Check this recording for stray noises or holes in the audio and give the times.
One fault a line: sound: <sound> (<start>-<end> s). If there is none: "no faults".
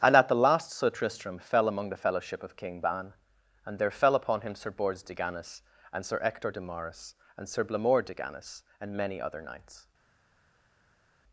no faults